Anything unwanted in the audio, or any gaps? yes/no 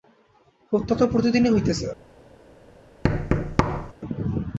yes